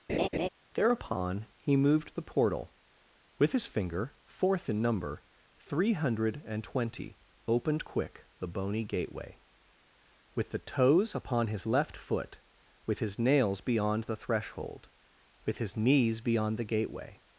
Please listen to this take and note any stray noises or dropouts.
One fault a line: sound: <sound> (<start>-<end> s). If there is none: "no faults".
sound: laugh (0.1-0.5 s)